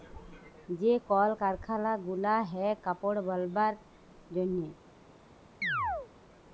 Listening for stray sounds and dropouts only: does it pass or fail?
fail